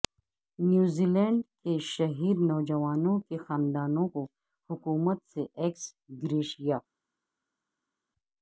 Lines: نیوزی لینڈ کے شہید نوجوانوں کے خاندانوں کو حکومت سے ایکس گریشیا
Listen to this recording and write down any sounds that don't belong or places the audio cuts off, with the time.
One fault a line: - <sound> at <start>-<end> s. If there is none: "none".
none